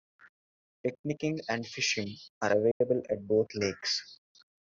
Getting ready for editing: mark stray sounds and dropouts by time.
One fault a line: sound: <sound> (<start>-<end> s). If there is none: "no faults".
sound: dropout (2.7-2.8 s)